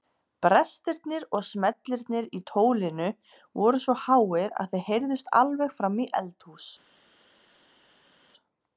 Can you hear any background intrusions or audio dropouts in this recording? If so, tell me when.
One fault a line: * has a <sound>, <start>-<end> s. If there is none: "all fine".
all fine